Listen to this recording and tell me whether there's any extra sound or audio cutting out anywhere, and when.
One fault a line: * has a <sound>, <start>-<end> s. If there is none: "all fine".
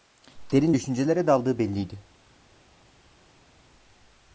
all fine